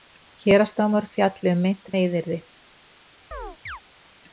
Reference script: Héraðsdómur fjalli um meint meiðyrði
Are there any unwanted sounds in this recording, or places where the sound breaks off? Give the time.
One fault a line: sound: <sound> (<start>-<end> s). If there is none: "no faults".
sound: chirp (3.3-3.8 s)